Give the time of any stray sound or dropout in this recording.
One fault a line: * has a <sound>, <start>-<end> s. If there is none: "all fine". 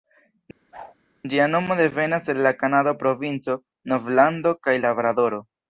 * has a whoosh, 0.7-0.9 s